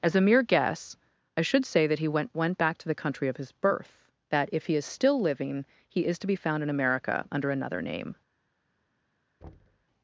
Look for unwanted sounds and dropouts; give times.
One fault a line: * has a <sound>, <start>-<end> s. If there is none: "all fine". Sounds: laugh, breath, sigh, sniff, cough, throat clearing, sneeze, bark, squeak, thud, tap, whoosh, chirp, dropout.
* has a thud, 9.4-9.9 s